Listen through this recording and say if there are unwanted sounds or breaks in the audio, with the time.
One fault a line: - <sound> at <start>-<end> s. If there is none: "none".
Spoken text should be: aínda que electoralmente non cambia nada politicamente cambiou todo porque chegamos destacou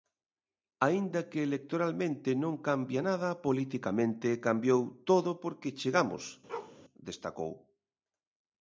- bark at 6.5-6.8 s